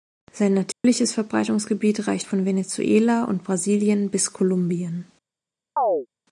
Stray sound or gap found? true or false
true